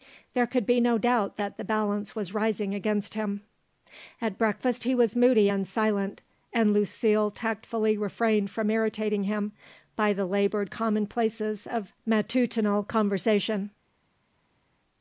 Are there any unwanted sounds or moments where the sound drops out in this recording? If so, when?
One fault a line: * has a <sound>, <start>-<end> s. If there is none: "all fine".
all fine